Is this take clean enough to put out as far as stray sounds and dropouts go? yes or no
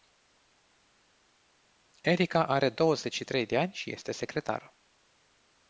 yes